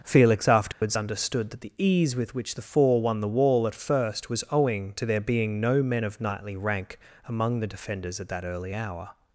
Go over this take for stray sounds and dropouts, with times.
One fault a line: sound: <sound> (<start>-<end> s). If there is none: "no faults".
sound: dropout (0.7-0.8 s)